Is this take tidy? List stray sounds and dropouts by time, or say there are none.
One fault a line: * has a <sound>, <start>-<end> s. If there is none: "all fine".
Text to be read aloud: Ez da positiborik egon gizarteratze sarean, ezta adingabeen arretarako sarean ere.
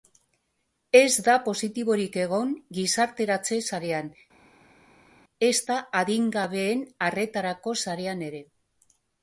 all fine